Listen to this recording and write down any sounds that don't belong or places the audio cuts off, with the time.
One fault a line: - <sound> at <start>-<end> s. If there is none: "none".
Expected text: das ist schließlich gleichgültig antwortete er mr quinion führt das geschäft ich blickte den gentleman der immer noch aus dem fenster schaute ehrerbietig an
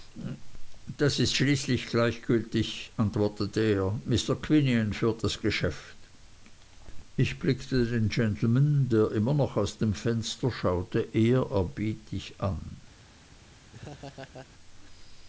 - laugh at 13.7-14.5 s